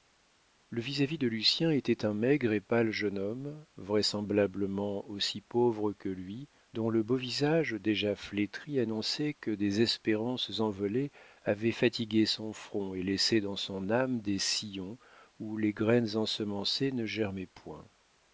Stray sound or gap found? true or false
false